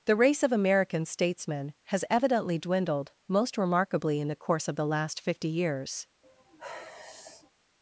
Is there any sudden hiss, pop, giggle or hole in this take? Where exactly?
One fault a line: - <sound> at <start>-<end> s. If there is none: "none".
- sigh at 6.2-7.5 s